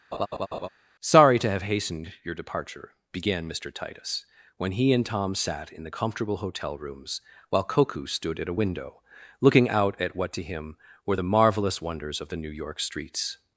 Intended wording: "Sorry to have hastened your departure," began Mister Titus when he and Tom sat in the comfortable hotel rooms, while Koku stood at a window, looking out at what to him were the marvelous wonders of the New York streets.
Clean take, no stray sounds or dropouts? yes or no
no